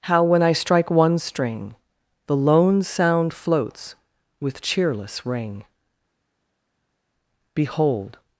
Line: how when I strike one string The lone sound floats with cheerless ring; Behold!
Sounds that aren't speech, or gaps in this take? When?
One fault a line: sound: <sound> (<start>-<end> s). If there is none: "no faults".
no faults